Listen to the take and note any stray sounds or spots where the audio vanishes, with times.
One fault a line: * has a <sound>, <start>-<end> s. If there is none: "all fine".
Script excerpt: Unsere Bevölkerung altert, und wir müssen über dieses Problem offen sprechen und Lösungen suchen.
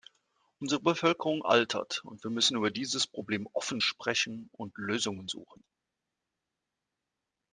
all fine